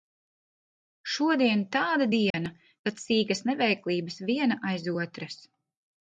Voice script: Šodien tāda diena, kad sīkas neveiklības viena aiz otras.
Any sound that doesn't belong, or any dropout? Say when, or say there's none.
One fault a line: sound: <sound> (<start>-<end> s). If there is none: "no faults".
sound: dropout (2.3-2.3 s)